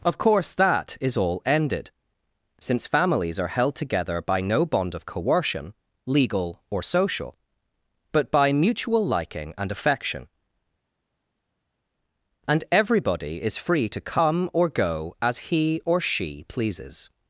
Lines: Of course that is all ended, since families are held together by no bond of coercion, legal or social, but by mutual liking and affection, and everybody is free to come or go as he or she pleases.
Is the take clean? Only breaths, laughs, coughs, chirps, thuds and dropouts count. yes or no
yes